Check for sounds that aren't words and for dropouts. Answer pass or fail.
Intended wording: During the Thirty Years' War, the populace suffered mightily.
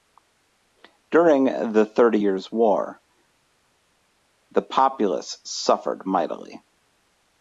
pass